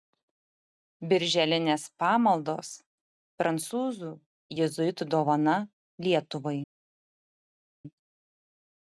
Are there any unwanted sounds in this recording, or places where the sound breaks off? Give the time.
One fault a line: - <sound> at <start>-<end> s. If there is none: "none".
none